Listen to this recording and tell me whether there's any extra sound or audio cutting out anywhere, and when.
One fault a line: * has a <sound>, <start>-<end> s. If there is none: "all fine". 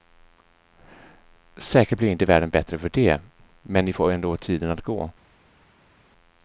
all fine